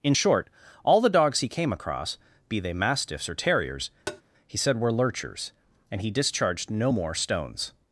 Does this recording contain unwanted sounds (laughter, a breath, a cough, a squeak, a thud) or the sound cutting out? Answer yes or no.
yes